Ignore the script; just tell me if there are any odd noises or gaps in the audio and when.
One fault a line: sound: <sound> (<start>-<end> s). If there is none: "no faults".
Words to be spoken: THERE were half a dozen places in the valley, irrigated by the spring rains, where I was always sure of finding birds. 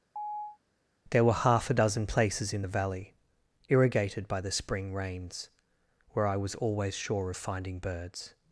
sound: chirp (0.2-0.6 s)